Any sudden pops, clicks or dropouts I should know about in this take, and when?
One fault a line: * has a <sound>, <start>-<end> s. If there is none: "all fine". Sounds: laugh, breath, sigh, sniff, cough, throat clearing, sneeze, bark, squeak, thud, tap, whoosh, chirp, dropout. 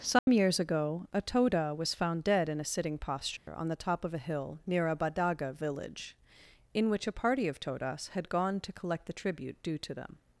* has a dropout, 0.2-0.3 s
* has a dropout, 3.4-3.5 s